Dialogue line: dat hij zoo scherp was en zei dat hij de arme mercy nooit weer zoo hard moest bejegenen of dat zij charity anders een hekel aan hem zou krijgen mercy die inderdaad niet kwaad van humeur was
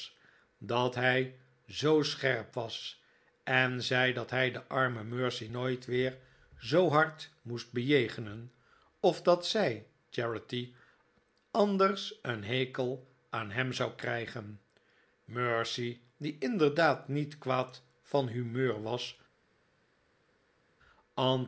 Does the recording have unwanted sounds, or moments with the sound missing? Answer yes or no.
no